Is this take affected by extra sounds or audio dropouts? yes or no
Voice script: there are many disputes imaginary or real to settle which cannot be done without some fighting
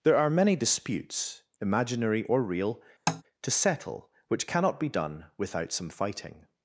yes